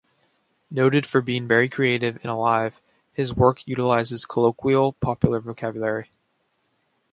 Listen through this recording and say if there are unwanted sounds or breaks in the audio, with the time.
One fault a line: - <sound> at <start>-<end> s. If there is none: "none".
none